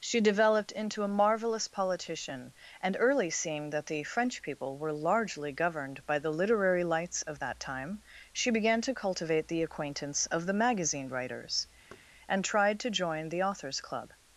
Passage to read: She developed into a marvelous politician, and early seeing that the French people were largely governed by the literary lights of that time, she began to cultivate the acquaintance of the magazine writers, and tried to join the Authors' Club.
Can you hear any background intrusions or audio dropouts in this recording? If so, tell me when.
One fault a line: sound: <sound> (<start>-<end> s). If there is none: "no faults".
sound: thud (11.9-12.1 s)